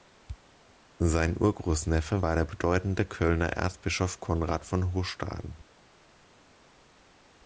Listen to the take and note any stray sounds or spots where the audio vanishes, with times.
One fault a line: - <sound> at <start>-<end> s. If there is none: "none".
none